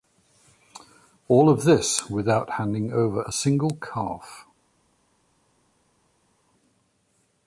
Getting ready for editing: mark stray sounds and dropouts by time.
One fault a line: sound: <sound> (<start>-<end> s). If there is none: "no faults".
no faults